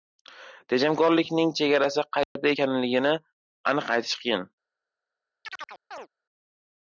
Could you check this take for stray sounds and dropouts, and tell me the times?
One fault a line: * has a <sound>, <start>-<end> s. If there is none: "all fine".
* has a dropout, 2.2-2.4 s
* has a chirp, 5.4-6.1 s